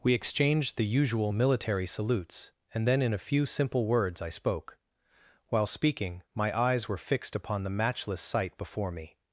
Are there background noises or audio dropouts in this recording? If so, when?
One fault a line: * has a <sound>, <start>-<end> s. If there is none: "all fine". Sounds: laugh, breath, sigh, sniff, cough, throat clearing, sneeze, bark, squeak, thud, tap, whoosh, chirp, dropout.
all fine